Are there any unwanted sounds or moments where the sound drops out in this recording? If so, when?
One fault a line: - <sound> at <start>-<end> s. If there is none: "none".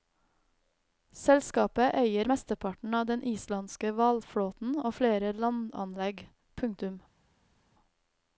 none